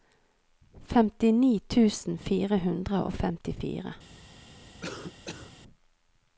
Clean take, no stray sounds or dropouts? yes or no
no